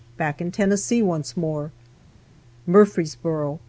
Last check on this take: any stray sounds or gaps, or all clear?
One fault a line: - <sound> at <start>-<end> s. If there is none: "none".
none